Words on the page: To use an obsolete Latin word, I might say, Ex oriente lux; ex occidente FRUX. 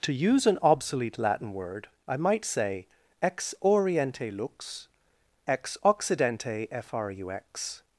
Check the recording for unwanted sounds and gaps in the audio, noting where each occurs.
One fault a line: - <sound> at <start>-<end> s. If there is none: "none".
none